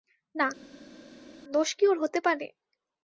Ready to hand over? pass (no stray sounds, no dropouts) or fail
pass